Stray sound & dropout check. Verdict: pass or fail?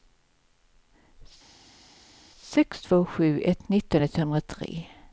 pass